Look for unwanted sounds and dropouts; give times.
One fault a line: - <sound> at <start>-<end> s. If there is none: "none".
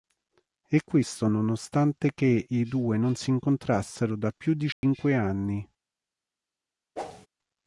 - dropout at 4.7-4.8 s
- whoosh at 7.0-7.3 s